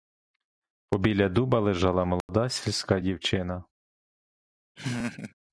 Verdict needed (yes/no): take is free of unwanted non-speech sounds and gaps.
no